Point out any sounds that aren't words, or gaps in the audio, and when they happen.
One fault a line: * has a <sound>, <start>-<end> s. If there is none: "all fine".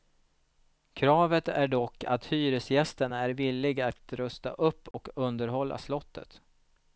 * has a dropout, 4.9-4.9 s